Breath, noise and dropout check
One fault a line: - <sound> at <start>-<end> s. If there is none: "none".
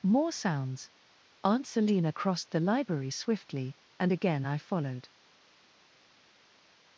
none